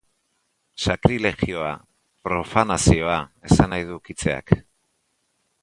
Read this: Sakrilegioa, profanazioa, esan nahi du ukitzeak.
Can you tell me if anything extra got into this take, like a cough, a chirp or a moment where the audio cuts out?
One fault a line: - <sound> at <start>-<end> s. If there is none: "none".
none